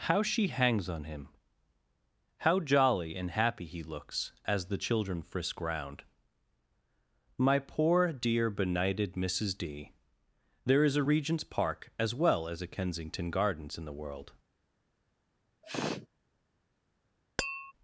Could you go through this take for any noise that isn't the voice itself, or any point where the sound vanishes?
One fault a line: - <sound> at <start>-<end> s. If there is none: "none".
- sneeze at 15.6-16.1 s
- tap at 17.4-17.7 s